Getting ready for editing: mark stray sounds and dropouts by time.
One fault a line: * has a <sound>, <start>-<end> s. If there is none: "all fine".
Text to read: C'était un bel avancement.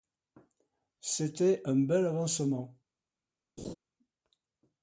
* has a laugh, 3.6-3.7 s